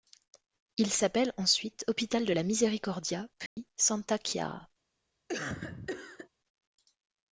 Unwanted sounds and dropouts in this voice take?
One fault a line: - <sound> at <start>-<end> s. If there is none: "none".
- dropout at 3.5-3.6 s
- cough at 5.3-6.3 s